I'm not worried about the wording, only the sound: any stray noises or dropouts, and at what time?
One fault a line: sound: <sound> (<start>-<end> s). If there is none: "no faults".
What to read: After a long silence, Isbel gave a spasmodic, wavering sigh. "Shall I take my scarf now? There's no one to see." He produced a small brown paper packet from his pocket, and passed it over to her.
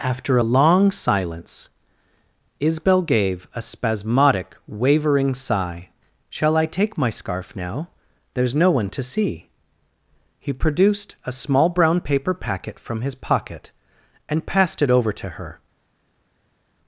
no faults